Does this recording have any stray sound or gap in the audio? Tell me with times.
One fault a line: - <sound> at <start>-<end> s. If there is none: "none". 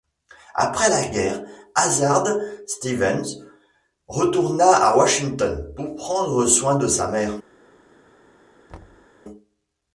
- thud at 8.7-9.1 s